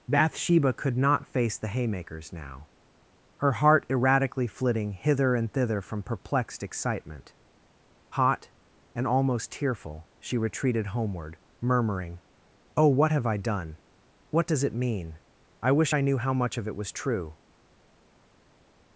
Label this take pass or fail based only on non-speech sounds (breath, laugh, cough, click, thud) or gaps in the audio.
pass